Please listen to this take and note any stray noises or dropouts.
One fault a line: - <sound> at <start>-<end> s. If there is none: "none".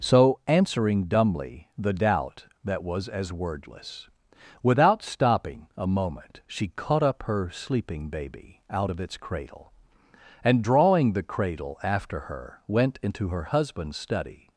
none